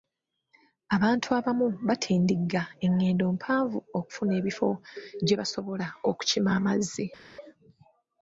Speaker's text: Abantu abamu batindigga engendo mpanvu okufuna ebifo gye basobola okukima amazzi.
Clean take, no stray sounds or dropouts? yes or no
yes